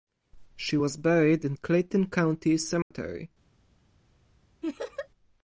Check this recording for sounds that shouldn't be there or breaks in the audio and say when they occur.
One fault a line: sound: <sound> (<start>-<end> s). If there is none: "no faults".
sound: dropout (2.8-2.9 s)
sound: laugh (4.6-5.1 s)